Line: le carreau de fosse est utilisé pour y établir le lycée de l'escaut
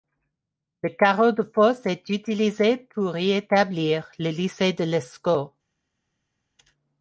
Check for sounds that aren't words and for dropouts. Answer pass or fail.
pass